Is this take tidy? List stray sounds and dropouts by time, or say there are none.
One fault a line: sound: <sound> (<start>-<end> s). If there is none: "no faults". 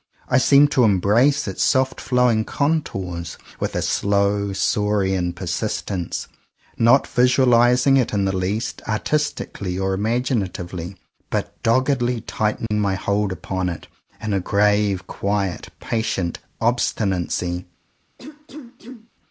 sound: dropout (12.7-12.7 s)
sound: cough (18.2-19.1 s)